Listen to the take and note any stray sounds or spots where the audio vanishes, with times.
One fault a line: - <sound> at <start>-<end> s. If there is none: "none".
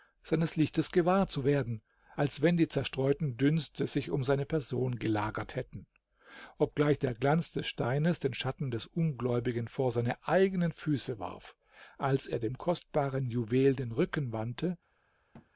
- thud at 15.3-15.5 s